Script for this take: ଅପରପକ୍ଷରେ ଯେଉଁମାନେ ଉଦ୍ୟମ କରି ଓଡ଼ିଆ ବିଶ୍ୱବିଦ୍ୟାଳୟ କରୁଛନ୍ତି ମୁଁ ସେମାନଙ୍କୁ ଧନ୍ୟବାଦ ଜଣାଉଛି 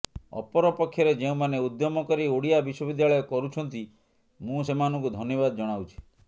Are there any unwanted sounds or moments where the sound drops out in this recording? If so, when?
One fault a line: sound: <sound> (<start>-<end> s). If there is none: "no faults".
no faults